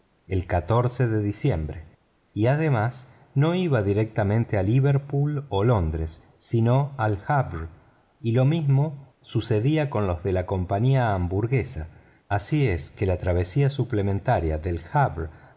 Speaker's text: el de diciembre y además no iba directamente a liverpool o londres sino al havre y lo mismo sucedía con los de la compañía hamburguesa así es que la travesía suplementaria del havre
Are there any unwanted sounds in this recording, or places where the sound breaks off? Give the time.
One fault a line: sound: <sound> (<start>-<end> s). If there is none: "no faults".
no faults